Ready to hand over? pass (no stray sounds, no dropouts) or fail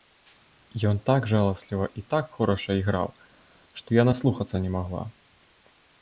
pass